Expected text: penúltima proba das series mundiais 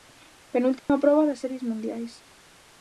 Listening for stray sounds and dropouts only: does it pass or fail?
fail